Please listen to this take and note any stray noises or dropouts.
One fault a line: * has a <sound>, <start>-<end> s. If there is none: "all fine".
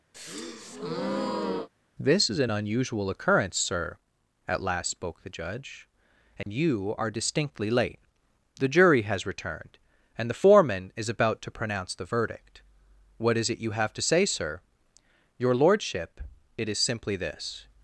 * has a breath, 0.1-1.7 s
* has a dropout, 6.4-6.5 s